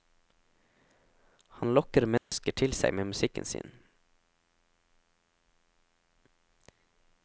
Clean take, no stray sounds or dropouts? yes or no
no